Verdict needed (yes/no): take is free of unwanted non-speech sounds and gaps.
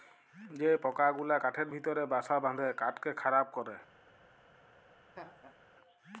no